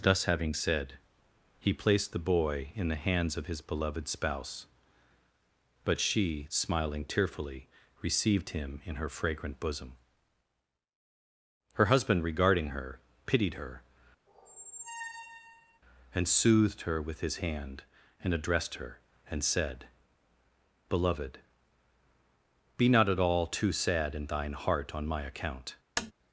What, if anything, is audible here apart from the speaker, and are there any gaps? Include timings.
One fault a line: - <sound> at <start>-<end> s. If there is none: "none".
- squeak at 14.3-15.8 s
- tap at 26.0-26.1 s